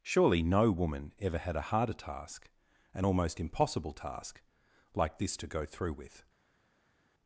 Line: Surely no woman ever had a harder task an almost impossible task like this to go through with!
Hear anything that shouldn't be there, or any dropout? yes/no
no